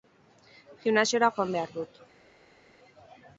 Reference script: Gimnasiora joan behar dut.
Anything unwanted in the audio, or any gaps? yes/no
no